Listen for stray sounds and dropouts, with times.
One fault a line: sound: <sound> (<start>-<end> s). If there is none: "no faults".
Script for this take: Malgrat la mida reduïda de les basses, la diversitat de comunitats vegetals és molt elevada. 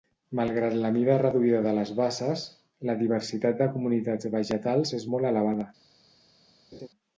sound: laugh (6.7-6.9 s)